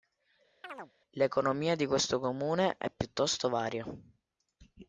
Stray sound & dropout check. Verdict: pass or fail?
fail